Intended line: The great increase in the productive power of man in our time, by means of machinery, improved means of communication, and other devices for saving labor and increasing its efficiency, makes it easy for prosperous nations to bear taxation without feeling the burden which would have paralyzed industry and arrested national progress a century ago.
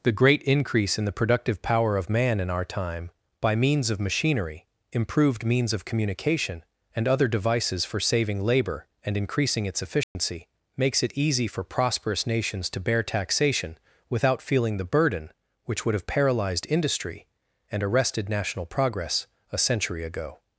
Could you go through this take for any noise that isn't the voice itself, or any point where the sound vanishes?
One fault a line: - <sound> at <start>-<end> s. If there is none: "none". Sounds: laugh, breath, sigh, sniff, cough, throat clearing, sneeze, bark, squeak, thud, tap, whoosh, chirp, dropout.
- dropout at 10.0-10.2 s